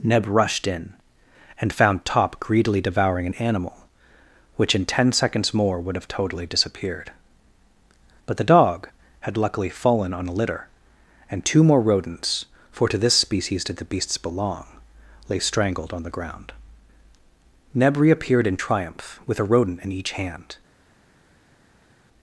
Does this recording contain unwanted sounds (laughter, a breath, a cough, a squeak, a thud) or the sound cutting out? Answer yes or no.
no